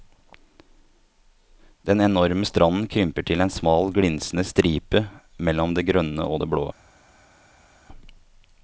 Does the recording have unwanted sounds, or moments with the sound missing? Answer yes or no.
no